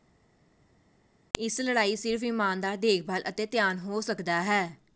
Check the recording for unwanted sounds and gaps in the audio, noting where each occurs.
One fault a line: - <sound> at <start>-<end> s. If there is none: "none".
none